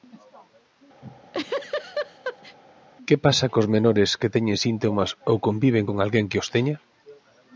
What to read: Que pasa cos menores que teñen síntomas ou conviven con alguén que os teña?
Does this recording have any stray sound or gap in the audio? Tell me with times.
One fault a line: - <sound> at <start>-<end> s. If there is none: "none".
- laugh at 1.0-2.6 s